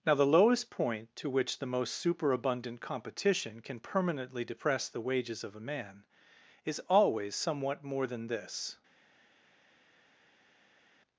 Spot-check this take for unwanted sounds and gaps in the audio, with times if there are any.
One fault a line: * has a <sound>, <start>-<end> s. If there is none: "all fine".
all fine